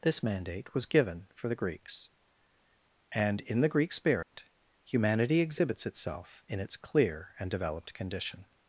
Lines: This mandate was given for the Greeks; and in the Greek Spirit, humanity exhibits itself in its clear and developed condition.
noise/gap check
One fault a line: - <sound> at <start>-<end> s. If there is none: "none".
- dropout at 4.2-4.3 s